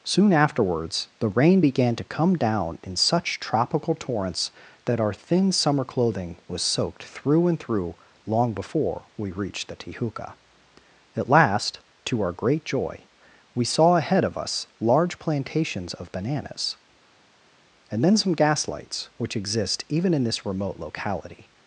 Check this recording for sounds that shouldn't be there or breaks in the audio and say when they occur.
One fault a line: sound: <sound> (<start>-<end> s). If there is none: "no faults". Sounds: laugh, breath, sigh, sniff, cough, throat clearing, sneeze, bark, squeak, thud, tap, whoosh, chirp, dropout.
no faults